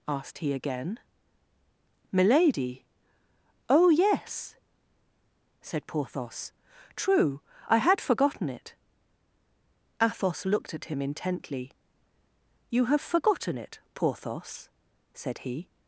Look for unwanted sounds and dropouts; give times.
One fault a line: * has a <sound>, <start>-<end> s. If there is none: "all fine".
all fine